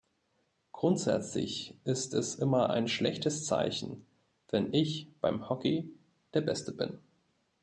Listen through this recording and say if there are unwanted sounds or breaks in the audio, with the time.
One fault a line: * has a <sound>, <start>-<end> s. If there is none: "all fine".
all fine